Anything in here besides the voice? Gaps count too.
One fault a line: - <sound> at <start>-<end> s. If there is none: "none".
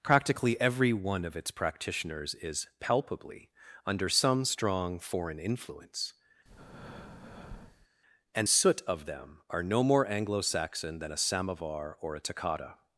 - breath at 6.4-7.9 s